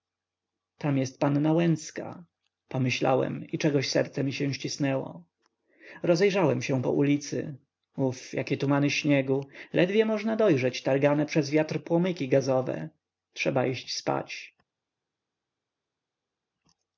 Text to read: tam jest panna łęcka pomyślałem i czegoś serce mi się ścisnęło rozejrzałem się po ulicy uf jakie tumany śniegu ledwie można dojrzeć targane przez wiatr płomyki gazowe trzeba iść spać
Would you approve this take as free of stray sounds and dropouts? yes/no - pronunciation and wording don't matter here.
yes